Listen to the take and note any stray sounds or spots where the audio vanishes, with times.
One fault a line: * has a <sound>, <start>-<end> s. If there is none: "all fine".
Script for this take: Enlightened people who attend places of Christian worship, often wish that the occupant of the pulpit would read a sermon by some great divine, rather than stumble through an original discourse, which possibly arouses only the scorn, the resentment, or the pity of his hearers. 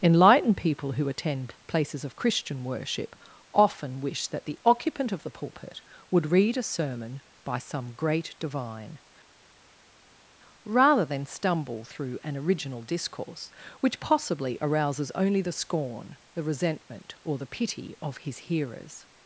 all fine